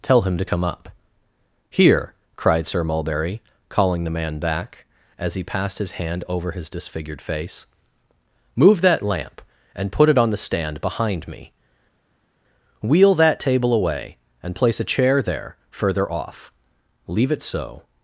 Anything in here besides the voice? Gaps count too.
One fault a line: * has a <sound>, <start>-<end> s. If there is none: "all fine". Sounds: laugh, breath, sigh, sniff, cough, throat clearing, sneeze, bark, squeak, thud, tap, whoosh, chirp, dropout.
all fine